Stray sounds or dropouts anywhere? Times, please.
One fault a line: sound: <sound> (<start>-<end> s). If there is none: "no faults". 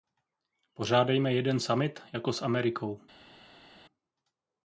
no faults